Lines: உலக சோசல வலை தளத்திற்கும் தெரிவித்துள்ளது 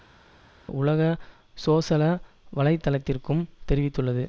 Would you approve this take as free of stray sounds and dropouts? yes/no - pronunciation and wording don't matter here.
yes